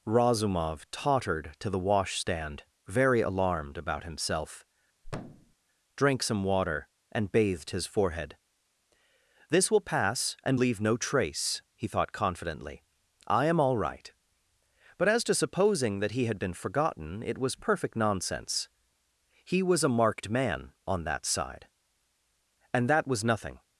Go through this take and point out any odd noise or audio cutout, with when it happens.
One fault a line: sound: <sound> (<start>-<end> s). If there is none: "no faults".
sound: thud (5.0-5.5 s)